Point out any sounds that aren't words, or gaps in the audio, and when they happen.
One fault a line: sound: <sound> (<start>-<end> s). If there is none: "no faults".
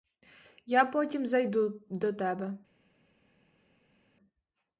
no faults